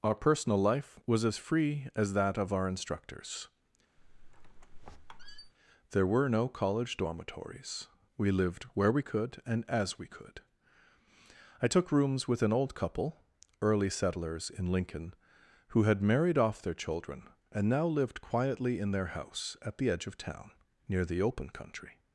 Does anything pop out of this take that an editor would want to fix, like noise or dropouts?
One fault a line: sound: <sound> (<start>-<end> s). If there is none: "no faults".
sound: squeak (4.0-5.5 s)